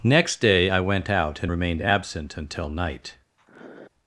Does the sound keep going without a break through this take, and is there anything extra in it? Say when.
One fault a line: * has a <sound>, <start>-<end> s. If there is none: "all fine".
* has a sniff, 3.4-3.9 s